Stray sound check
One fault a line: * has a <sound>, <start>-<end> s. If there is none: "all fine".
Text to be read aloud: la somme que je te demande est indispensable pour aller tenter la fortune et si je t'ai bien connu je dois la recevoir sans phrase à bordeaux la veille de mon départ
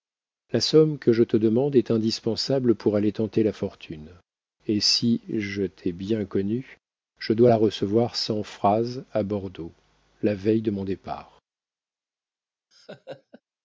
* has a laugh, 12.7-13.4 s